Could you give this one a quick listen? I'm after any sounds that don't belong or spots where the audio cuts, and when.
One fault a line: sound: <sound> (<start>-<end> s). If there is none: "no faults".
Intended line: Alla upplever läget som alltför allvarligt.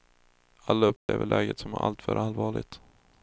sound: dropout (1.0-1.1 s)